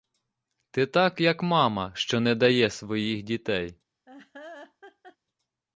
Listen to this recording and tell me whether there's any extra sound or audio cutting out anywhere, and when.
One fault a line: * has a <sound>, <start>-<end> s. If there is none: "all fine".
* has a laugh, 4.1-5.2 s